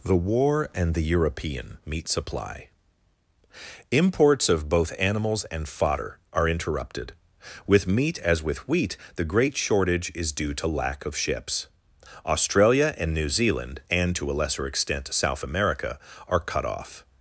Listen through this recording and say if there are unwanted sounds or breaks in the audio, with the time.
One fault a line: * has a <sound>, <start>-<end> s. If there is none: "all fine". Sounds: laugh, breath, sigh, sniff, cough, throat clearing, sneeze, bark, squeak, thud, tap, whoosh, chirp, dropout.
all fine